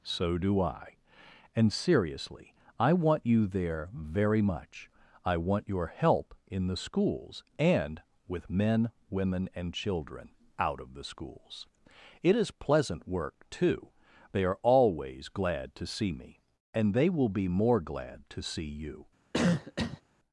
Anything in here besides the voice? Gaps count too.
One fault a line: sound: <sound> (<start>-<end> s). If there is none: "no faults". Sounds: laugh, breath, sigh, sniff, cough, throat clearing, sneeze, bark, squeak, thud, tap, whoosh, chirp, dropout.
sound: cough (19.3-20.0 s)